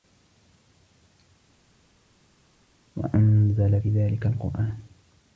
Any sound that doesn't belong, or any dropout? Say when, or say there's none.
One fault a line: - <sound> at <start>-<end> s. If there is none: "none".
none